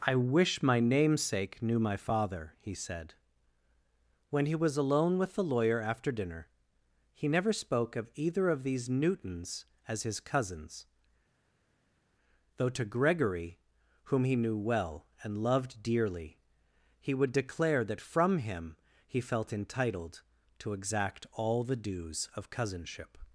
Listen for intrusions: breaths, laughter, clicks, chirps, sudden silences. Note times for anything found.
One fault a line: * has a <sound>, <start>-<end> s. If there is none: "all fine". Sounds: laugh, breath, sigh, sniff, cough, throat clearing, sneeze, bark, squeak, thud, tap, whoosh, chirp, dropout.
all fine